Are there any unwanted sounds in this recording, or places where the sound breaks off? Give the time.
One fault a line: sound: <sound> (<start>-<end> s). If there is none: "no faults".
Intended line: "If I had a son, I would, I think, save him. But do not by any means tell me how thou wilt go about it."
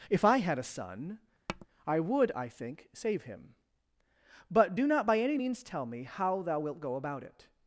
sound: tap (1.5-1.7 s)